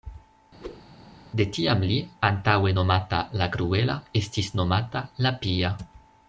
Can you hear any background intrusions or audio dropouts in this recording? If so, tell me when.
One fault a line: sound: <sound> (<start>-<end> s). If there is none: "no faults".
sound: whoosh (0.6-0.8 s)